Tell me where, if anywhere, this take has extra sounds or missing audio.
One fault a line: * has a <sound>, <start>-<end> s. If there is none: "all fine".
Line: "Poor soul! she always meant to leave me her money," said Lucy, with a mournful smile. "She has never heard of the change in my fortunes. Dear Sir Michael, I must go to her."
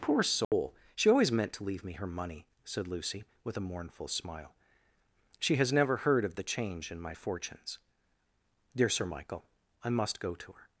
* has a dropout, 0.4-0.5 s